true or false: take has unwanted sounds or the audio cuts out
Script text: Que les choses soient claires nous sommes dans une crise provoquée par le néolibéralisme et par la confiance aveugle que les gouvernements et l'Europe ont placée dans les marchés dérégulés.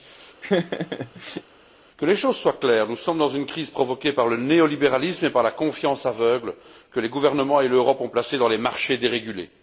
true